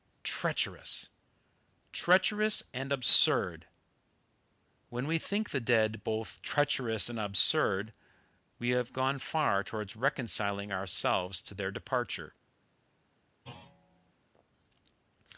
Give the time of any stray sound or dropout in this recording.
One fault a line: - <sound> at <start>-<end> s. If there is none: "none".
- thud at 13.4-14.1 s